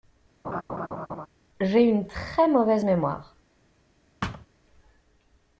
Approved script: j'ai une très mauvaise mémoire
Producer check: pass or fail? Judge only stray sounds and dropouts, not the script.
fail